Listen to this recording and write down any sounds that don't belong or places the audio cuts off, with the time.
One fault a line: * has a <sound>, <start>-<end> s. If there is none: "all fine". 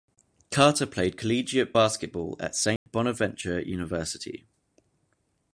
* has a dropout, 2.8-2.9 s